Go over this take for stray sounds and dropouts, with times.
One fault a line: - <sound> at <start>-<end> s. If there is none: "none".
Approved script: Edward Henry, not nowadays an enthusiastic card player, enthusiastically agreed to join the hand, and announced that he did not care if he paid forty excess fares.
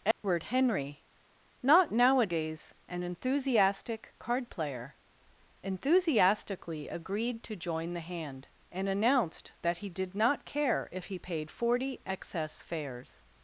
- dropout at 0.1-0.2 s